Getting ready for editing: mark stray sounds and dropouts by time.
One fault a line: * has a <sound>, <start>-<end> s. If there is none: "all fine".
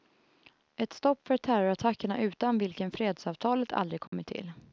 * has a dropout, 4.1-4.1 s